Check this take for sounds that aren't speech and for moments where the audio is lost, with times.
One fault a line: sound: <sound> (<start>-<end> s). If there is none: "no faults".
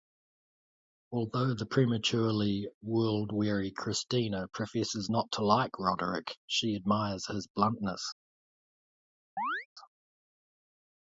sound: chirp (9.4-9.7 s)